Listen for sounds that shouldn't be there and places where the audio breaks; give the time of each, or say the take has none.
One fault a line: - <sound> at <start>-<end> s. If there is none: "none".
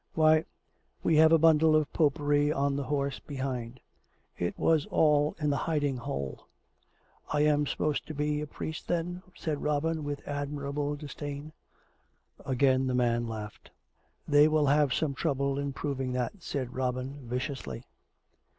none